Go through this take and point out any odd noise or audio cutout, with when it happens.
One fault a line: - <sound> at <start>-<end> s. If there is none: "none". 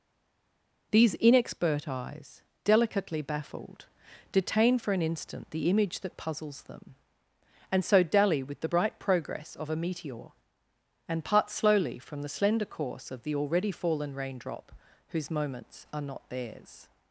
none